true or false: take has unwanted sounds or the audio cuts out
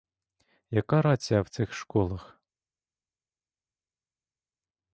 false